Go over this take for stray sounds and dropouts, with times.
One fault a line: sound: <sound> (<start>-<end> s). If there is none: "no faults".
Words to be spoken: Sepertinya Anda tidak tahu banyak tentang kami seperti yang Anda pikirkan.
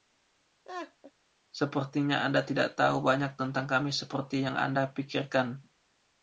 sound: laugh (0.6-1.1 s)